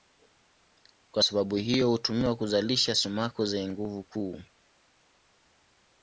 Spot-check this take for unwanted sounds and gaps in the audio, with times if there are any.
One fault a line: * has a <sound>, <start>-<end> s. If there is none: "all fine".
all fine